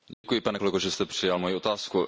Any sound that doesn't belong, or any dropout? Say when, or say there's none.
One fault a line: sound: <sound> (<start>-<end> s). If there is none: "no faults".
sound: dropout (0.1-0.2 s)